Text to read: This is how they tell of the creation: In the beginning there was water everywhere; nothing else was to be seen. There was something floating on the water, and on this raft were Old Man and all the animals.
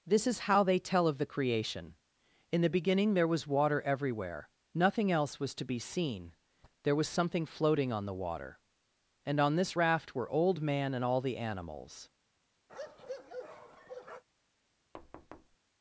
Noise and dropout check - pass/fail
fail